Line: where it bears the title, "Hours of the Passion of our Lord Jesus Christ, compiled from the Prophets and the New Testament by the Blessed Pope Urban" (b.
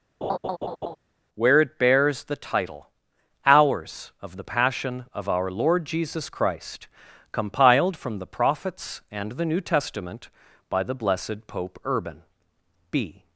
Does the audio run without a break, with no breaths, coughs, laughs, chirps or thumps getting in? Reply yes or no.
no